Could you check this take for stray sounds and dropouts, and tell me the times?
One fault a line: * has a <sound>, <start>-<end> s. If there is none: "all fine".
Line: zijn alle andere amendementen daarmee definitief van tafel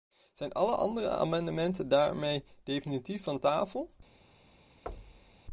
* has a thud, 4.9-5.4 s